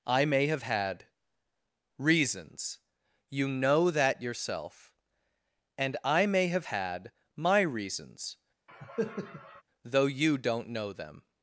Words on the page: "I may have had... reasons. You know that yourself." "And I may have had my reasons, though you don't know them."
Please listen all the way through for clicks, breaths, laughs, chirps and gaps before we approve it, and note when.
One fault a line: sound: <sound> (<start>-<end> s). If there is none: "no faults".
sound: cough (8.7-9.6 s)